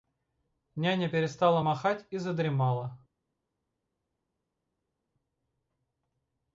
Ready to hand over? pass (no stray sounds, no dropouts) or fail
pass